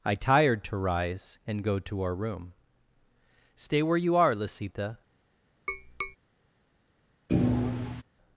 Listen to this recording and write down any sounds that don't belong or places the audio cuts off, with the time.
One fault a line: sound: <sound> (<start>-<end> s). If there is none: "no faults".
sound: tap (5.7-6.2 s)
sound: thud (7.3-8.0 s)